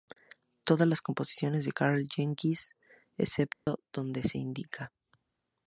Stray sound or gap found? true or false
true